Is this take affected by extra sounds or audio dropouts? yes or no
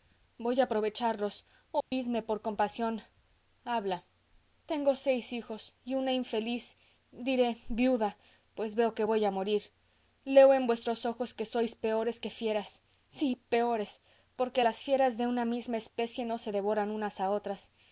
yes